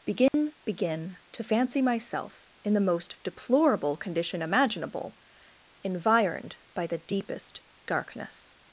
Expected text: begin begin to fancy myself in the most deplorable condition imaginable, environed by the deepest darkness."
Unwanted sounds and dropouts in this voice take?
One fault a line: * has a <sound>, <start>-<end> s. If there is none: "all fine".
* has a dropout, 0.3-0.3 s